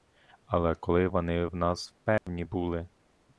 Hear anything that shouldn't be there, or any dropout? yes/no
yes